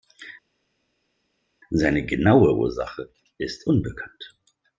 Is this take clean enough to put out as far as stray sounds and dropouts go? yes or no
yes